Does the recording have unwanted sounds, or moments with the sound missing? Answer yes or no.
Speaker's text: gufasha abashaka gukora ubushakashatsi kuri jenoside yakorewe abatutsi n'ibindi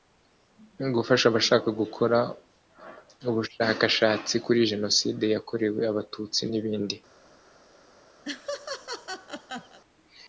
yes